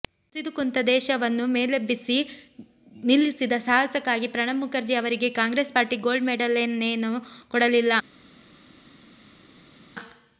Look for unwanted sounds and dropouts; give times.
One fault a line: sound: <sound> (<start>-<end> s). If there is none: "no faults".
no faults